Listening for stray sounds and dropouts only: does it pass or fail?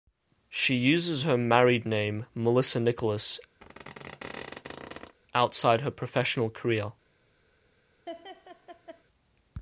fail